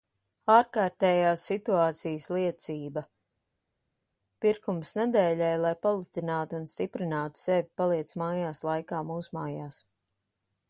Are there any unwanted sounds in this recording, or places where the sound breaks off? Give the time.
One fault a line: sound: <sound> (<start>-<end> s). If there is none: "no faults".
no faults